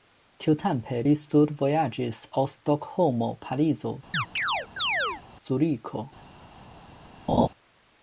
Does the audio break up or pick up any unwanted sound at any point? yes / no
yes